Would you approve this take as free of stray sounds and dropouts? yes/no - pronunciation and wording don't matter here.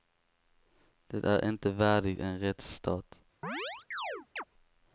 no